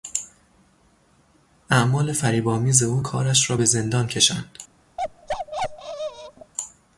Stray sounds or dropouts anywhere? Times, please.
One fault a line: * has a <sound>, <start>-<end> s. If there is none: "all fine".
* has a bark, 5.0-6.5 s